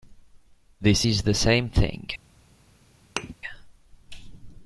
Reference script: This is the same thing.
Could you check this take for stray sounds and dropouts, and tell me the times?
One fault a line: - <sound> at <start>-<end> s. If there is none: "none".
- thud at 3.2-3.3 s